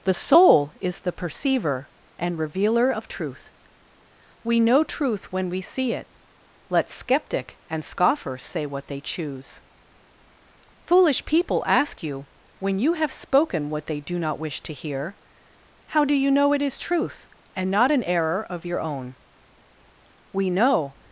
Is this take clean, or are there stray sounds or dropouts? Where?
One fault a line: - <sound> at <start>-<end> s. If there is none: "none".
none